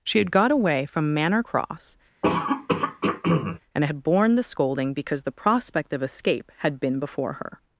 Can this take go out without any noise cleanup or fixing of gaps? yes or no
no